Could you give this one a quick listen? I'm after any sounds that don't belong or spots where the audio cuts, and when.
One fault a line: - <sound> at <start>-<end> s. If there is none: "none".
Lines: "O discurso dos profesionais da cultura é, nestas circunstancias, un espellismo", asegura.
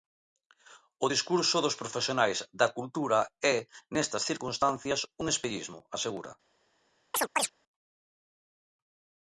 - chirp at 7.1-7.5 s